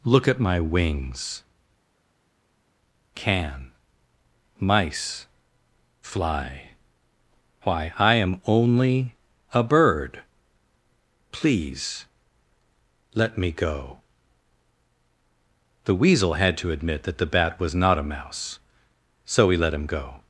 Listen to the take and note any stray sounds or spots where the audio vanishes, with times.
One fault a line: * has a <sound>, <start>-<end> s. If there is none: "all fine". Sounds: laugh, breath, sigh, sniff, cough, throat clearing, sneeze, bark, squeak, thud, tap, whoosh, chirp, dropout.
all fine